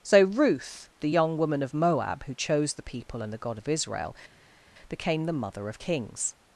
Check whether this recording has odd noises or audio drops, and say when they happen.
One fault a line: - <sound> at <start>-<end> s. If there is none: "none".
none